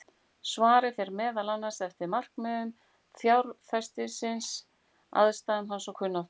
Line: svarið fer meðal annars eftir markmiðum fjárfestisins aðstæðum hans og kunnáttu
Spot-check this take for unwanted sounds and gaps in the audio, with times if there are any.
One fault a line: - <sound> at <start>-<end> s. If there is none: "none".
none